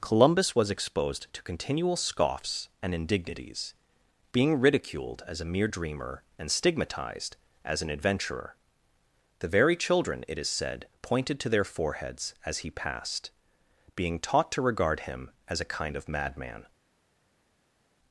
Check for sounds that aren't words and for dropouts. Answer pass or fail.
pass